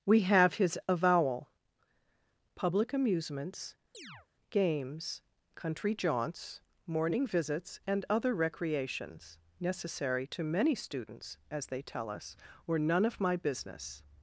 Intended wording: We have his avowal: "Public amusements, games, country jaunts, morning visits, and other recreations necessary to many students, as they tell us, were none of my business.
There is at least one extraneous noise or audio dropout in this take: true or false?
true